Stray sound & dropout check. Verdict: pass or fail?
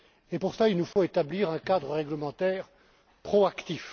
fail